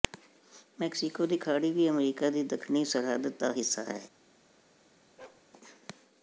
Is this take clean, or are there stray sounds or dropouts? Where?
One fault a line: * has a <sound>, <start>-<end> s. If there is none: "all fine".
* has a bark, 5.2-5.5 s